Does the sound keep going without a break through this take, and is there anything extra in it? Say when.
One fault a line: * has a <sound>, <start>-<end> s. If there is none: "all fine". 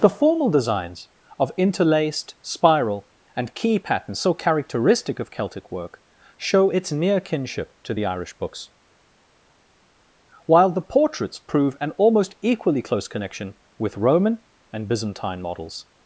all fine